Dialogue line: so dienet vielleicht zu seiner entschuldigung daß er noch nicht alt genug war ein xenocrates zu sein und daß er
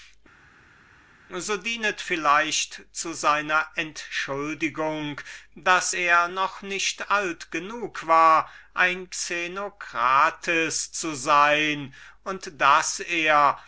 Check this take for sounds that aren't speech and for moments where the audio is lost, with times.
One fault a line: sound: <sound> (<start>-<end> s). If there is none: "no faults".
no faults